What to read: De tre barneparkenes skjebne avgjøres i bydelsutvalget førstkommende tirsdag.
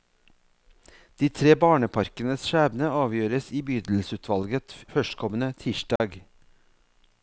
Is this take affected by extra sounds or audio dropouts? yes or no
yes